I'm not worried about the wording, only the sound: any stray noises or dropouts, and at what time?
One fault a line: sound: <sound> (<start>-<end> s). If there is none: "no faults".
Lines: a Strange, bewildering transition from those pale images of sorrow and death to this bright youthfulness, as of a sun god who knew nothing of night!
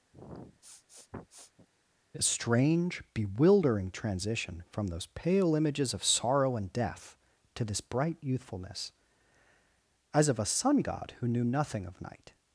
sound: sniff (0.1-1.7 s)